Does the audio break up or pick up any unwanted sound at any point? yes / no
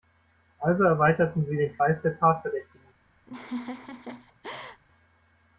yes